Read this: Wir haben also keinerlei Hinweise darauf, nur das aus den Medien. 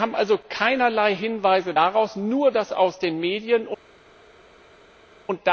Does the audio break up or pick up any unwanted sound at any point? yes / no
no